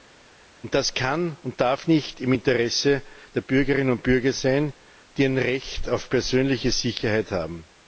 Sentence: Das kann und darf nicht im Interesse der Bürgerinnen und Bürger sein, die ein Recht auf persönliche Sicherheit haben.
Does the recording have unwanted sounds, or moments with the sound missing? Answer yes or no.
no